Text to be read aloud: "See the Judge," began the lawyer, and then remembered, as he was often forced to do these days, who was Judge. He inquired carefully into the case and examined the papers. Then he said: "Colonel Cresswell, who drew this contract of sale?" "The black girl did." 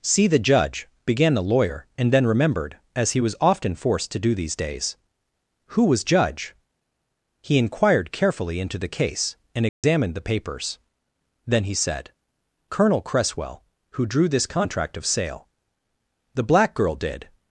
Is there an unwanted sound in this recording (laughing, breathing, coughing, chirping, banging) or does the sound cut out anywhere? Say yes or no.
yes